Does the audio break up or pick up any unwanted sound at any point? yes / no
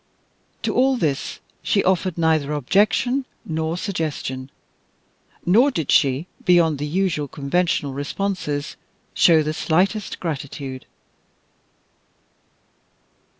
no